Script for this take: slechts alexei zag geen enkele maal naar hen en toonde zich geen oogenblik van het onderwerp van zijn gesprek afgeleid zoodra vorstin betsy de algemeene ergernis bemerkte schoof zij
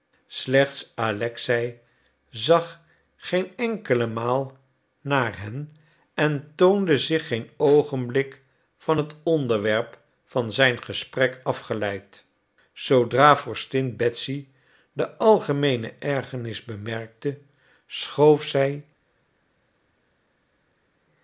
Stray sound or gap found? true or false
false